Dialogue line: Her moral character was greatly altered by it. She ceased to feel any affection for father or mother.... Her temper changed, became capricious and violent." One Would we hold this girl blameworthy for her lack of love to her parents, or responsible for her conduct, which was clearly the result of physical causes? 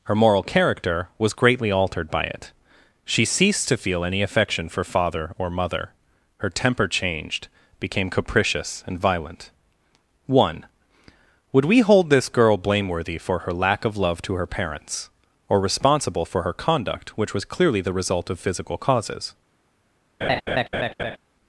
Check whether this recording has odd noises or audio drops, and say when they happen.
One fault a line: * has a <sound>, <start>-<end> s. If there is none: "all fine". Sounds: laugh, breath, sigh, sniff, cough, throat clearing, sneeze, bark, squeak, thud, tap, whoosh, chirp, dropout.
* has a laugh, 20.2-21.2 s